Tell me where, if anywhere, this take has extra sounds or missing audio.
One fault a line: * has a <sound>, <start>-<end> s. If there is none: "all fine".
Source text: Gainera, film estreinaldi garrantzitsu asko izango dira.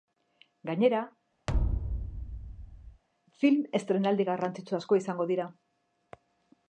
* has a thud, 1.5-3.0 s